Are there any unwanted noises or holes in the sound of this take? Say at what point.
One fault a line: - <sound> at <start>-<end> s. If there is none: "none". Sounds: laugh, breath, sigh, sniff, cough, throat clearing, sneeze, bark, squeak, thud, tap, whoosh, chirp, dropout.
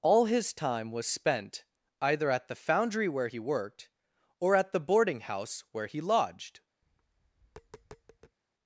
- tap at 6.8-8.4 s